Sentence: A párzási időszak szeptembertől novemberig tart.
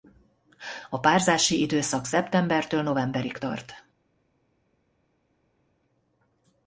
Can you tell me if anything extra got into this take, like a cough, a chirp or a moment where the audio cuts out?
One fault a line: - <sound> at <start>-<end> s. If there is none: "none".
none